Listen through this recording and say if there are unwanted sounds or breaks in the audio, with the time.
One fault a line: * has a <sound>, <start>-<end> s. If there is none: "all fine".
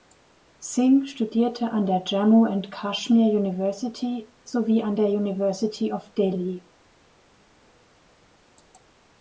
all fine